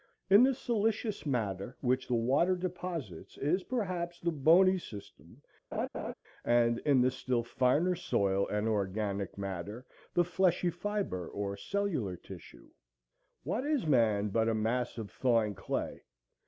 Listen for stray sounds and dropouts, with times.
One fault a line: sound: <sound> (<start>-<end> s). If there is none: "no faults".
sound: laugh (5.7-6.1 s)